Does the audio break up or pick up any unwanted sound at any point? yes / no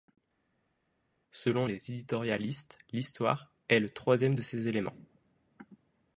no